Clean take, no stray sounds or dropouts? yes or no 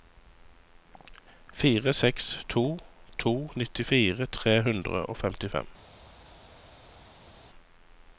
yes